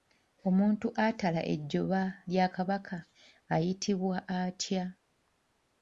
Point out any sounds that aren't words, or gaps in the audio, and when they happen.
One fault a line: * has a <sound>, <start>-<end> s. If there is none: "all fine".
all fine